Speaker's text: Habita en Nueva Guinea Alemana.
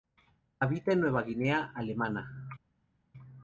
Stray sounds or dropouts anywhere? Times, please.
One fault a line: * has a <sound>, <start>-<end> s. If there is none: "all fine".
all fine